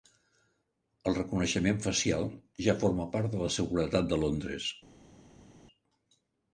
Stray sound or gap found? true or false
false